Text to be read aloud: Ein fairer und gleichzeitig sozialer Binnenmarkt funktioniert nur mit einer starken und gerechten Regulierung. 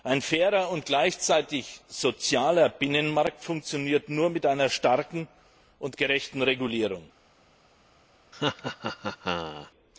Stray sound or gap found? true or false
true